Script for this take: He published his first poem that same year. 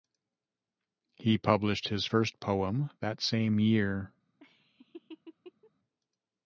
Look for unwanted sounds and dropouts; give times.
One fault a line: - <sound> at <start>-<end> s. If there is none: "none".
- laugh at 4.4-5.7 s